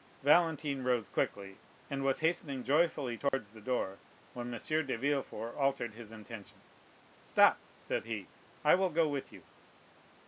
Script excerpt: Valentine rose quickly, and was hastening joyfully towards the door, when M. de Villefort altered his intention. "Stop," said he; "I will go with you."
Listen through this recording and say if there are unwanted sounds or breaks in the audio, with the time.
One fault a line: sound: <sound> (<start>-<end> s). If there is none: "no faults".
sound: dropout (3.3-3.3 s)